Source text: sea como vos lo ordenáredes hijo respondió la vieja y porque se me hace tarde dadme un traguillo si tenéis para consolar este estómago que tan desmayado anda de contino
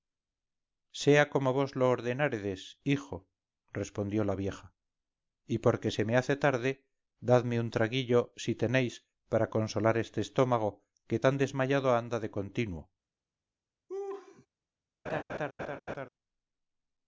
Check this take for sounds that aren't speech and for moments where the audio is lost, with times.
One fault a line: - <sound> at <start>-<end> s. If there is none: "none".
- laugh at 13.9-14.5 s
- laugh at 15.1-16.1 s